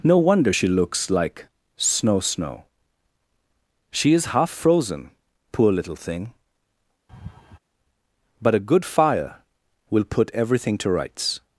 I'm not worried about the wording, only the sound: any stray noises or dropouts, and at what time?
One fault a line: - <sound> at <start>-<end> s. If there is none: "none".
- laugh at 7.1-7.6 s